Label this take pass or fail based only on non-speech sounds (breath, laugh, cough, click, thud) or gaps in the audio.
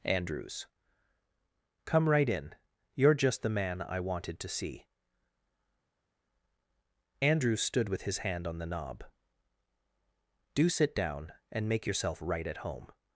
pass